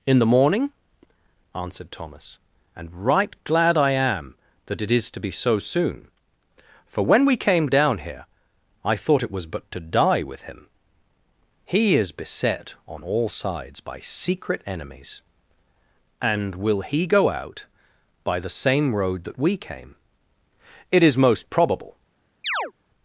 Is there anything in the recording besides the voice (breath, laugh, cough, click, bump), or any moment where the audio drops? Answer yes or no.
yes